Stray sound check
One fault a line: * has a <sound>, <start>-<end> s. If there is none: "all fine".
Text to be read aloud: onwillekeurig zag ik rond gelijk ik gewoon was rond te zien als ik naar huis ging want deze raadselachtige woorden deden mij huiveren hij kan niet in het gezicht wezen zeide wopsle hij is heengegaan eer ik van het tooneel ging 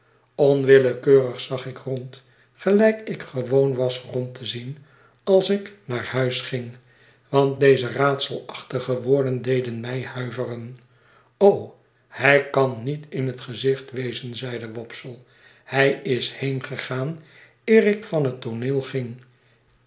all fine